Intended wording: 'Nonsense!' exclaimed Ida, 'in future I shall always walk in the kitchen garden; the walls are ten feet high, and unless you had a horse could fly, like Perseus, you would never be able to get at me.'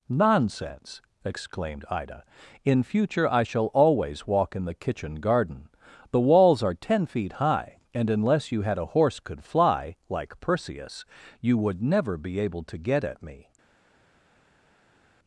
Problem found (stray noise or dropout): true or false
false